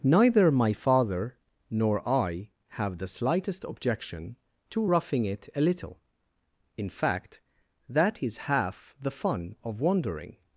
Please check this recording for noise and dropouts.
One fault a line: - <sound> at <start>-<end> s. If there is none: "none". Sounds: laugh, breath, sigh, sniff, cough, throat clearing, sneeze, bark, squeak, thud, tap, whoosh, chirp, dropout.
none